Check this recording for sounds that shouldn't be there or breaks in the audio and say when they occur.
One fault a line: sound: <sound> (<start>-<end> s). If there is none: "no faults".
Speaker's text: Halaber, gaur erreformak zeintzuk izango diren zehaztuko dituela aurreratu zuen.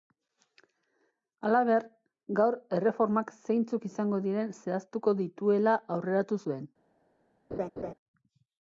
sound: laugh (7.5-7.9 s)